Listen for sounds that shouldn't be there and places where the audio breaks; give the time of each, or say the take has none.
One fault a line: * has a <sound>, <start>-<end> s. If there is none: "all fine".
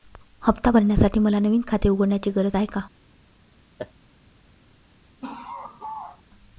* has a laugh, 3.8-3.9 s
* has a laugh, 5.2-6.2 s